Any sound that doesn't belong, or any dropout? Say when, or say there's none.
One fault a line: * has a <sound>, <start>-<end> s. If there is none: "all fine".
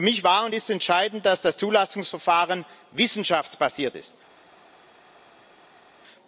all fine